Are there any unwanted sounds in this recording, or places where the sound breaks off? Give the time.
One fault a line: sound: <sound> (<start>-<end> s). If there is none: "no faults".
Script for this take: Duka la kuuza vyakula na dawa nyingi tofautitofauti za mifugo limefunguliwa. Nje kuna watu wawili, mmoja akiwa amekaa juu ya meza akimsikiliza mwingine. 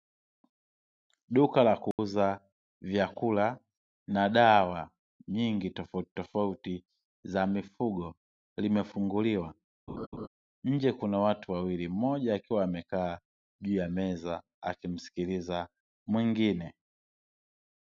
sound: dropout (1.9-2.0 s)
sound: laugh (9.9-10.3 s)